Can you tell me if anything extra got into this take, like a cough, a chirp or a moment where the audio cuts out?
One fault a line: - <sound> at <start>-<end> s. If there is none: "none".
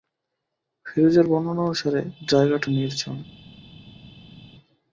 none